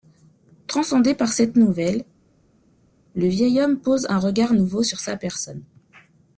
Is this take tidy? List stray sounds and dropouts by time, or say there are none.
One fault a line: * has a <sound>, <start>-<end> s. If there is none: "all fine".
all fine